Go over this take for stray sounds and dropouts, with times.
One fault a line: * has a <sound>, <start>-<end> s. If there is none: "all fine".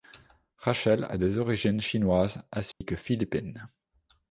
* has a dropout, 2.7-2.8 s